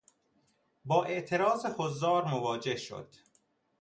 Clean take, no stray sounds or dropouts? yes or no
yes